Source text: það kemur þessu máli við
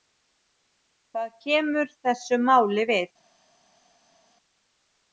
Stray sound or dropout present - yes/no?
no